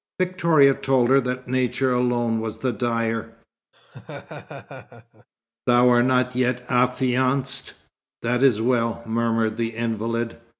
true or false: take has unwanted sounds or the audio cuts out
true